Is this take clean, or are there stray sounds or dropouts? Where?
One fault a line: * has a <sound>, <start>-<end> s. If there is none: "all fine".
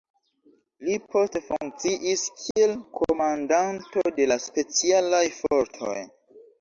* has a dropout, 2.5-2.6 s